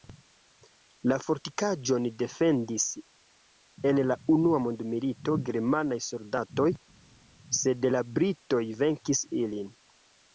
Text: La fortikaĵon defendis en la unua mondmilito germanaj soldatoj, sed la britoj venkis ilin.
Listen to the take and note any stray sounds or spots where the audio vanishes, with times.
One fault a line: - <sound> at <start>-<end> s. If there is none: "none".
none